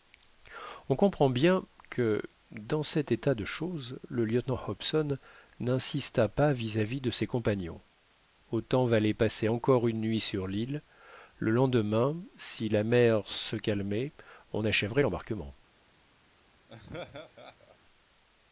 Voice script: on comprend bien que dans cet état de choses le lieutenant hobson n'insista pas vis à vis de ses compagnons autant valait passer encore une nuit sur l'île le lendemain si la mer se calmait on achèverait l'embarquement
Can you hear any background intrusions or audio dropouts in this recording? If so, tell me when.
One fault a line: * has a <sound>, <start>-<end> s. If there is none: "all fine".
* has a laugh, 16.7-17.8 s